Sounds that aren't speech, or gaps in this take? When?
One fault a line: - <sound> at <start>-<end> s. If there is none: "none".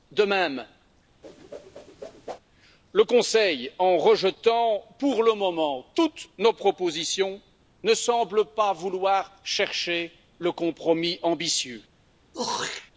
- whoosh at 1.2-2.4 s
- throat clearing at 12.3-12.9 s